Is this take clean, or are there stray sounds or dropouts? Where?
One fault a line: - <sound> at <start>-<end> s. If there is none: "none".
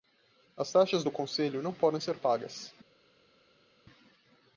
none